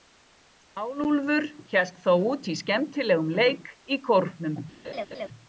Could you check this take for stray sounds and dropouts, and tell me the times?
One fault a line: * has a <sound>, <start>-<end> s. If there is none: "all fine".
* has a laugh, 4.8-5.3 s